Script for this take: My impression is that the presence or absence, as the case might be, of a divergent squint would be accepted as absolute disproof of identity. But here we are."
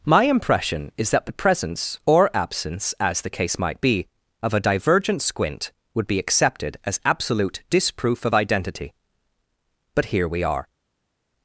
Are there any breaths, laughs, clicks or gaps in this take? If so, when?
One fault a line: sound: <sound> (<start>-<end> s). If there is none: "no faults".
no faults